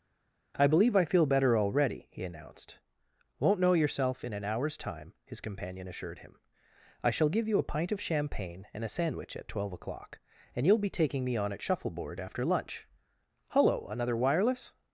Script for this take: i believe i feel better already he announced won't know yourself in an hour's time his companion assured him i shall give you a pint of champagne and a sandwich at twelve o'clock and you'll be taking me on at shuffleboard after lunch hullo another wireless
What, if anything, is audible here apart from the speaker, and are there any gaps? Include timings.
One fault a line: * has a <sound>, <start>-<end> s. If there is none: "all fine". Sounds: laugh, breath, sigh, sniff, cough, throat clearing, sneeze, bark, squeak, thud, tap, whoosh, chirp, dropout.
all fine